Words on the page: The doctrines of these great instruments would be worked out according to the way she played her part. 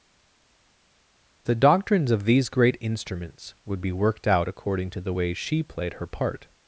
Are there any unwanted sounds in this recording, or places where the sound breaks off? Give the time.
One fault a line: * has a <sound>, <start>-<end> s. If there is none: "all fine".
all fine